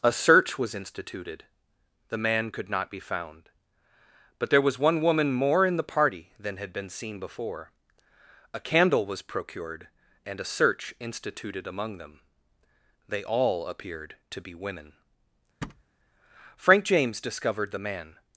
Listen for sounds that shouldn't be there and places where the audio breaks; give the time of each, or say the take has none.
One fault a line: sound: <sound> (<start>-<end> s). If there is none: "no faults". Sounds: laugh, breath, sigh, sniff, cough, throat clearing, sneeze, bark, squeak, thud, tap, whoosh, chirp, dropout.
sound: thud (15.6-15.8 s)